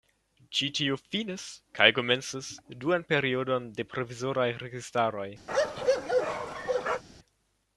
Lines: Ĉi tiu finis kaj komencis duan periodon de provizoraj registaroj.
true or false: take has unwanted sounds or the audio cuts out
true